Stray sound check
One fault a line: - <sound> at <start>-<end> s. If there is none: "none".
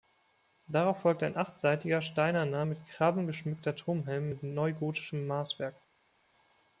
none